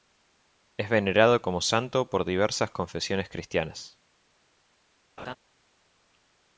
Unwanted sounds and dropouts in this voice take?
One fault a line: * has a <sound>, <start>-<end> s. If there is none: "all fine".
* has a laugh, 5.2-5.4 s